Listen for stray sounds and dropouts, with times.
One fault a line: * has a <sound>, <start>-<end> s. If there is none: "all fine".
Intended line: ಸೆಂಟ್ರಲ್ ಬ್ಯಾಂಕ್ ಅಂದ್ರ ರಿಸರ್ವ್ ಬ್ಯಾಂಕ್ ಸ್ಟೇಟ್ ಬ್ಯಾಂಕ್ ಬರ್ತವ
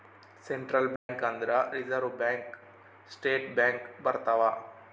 * has a dropout, 1.0-1.1 s